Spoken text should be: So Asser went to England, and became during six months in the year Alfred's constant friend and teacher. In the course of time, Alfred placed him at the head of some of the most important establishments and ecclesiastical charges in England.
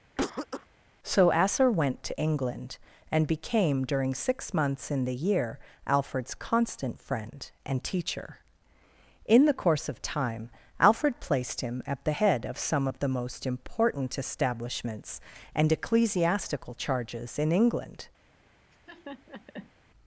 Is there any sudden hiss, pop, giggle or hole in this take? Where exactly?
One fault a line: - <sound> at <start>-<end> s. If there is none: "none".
- cough at 0.2-0.7 s
- laugh at 18.7-19.7 s